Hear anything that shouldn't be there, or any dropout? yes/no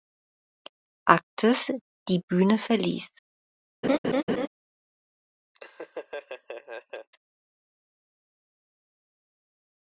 yes